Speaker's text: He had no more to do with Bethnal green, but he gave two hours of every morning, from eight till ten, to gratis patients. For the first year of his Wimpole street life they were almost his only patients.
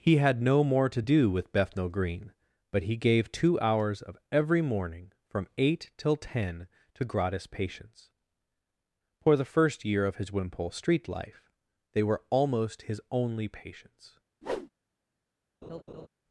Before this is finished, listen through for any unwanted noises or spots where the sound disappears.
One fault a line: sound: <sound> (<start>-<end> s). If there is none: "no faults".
sound: whoosh (14.4-14.7 s)
sound: laugh (15.6-16.1 s)